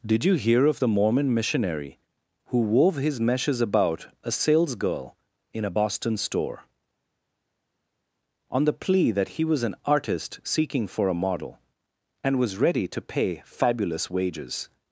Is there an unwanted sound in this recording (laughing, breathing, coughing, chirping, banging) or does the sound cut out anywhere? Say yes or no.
no